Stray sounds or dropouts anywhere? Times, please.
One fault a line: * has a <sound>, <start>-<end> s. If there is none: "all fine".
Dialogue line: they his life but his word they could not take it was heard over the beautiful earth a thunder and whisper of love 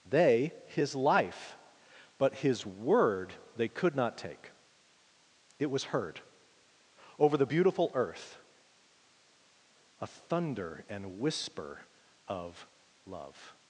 all fine